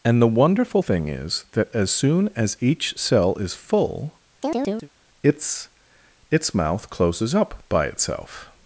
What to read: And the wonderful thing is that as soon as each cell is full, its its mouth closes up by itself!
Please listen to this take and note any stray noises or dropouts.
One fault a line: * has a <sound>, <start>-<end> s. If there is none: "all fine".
* has a chirp, 4.4-4.9 s